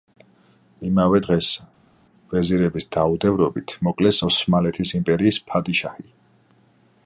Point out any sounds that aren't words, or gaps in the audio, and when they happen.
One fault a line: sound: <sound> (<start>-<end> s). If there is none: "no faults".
no faults